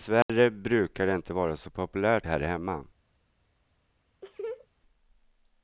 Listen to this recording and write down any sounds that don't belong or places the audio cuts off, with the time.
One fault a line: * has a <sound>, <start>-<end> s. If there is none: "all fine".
* has a dropout, 0.2-0.3 s
* has a laugh, 4.2-4.7 s